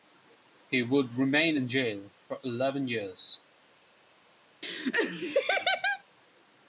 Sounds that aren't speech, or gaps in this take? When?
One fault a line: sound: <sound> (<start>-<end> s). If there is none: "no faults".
sound: laugh (4.6-6.0 s)